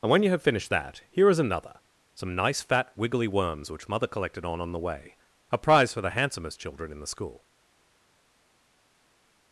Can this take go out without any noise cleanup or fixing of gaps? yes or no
yes